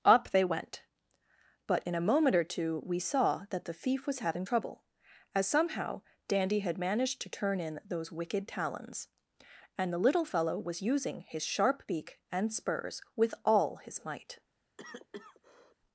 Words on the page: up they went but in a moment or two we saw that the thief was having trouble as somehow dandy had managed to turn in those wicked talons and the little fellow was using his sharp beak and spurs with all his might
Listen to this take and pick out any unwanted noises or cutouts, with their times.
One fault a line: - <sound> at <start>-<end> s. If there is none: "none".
- cough at 14.8-15.8 s